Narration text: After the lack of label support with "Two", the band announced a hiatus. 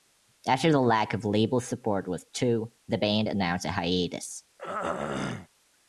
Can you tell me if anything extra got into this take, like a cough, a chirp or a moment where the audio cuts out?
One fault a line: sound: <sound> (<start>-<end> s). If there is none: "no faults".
sound: throat clearing (4.6-5.5 s)